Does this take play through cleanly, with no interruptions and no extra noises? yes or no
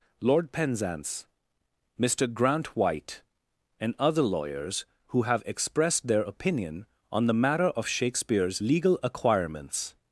yes